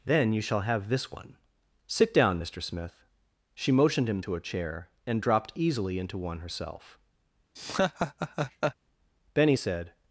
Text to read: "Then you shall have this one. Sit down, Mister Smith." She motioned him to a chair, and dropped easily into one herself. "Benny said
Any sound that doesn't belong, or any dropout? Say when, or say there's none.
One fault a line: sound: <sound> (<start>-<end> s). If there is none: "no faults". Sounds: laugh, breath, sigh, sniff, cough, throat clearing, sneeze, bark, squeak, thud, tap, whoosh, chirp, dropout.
sound: laugh (7.6-8.8 s)